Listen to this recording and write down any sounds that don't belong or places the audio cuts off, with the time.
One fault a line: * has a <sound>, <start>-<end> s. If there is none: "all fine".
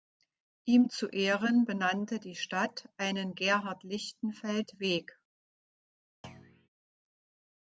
* has a thud, 6.2-6.7 s